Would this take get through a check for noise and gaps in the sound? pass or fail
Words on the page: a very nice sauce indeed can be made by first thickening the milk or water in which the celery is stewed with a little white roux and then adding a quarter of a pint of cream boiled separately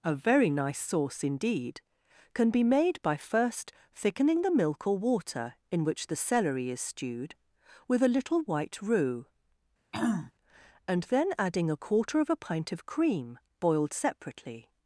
fail